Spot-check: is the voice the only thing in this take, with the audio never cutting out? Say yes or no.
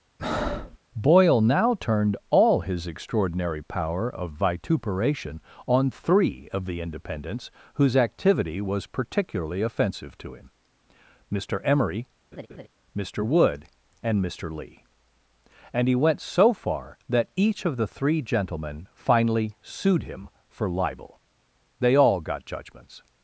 no